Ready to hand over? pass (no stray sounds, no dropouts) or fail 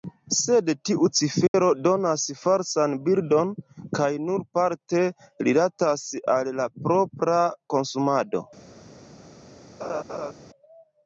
fail